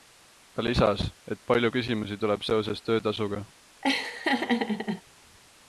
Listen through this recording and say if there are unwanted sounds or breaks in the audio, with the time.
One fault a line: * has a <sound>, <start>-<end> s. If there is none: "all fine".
* has a laugh, 3.8-5.0 s